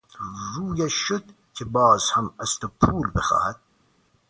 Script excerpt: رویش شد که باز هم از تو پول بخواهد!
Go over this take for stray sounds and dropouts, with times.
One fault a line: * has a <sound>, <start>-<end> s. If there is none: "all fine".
all fine